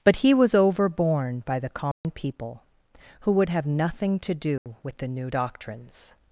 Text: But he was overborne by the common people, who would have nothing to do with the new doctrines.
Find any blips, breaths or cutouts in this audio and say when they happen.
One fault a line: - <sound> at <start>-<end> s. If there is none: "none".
- dropout at 1.9-2.0 s
- dropout at 4.6-4.7 s